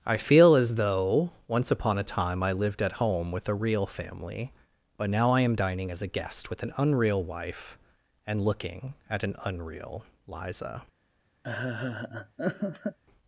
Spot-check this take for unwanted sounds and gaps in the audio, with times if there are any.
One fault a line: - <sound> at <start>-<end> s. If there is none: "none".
- laugh at 11.4-13.0 s